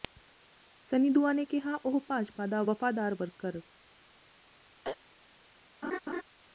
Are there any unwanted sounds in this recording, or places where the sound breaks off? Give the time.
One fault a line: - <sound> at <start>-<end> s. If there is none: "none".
- throat clearing at 4.8-5.0 s
- laugh at 5.8-6.2 s